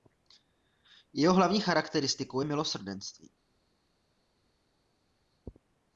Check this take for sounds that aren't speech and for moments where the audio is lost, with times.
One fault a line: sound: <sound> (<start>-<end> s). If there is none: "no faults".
no faults